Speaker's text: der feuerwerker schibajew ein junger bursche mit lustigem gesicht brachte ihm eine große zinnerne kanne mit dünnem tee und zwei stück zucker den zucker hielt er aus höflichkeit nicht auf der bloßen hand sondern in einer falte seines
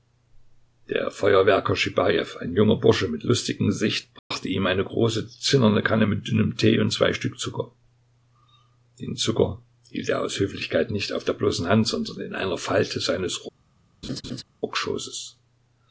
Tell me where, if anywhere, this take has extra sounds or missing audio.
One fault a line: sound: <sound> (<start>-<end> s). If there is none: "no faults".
sound: dropout (4.2-4.3 s)
sound: laugh (14.0-14.4 s)